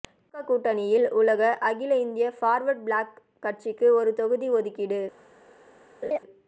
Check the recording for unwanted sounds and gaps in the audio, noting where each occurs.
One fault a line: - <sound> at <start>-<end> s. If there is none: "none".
- laugh at 6.0-6.2 s